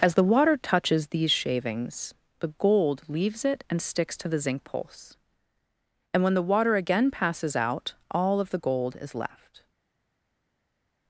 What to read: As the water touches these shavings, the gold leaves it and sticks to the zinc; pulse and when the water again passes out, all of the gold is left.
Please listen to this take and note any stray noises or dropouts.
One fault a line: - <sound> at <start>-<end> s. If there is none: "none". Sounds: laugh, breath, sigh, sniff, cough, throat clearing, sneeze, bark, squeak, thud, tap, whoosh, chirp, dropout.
none